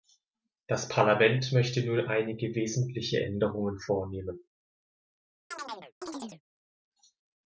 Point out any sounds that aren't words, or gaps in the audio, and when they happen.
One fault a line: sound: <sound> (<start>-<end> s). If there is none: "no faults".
sound: chirp (5.5-6.4 s)